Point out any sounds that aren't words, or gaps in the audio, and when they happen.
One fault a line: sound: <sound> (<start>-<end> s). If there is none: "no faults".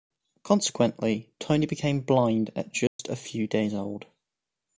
sound: dropout (2.9-3.0 s)